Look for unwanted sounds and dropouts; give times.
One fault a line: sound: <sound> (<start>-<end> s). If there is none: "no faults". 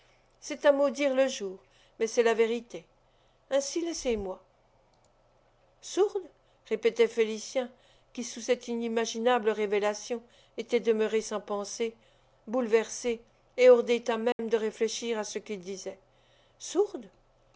sound: dropout (14.3-14.4 s)